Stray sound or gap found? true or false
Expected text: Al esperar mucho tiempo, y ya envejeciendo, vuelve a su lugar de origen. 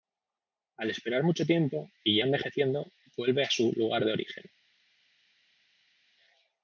false